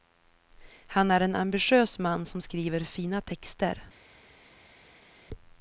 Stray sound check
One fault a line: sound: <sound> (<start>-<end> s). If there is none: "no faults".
no faults